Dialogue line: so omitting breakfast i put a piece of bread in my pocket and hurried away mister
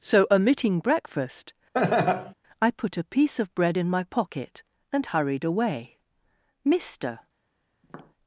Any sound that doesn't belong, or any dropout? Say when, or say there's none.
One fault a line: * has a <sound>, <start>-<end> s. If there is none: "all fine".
* has a laugh, 1.7-2.3 s
* has a tap, 7.8-8.1 s